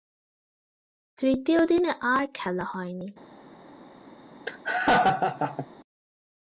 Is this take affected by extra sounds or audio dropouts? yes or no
yes